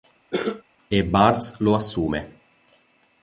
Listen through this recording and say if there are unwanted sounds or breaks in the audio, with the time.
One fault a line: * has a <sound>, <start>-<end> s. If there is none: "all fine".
* has a cough, 0.3-0.6 s